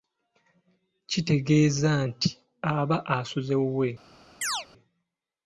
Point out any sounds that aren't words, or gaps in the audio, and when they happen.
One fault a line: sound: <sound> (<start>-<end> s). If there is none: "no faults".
sound: chirp (4.4-4.7 s)